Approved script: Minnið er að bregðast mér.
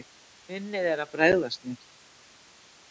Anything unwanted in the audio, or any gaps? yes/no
no